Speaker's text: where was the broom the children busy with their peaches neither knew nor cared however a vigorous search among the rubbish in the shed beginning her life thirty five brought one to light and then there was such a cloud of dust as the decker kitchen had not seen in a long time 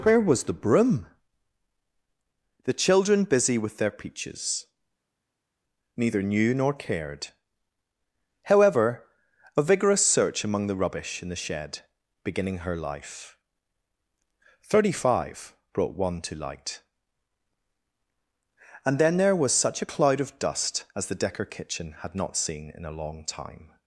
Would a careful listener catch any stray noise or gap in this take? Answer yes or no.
no